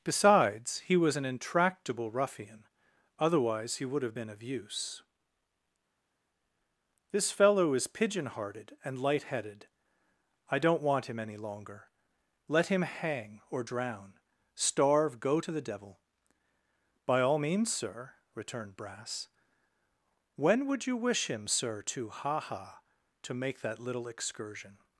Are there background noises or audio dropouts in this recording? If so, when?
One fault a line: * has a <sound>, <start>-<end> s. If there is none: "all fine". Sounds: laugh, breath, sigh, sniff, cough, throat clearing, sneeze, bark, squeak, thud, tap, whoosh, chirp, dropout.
all fine